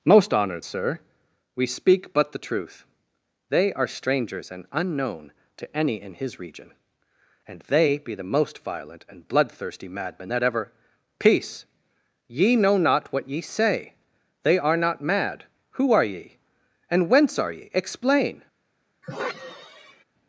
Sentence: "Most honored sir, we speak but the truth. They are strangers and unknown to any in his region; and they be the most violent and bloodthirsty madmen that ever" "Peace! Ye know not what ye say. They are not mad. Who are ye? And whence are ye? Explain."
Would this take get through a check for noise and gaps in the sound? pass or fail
fail